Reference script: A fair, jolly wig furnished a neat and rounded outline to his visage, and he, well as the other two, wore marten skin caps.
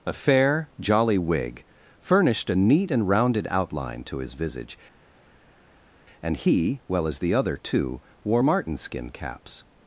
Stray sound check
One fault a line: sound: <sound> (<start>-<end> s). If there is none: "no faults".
no faults